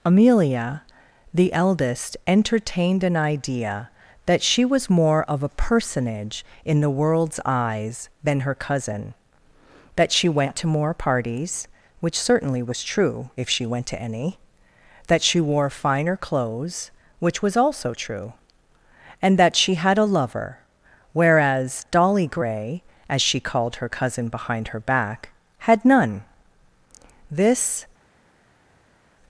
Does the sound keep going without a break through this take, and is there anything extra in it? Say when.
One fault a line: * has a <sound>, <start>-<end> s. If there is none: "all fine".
all fine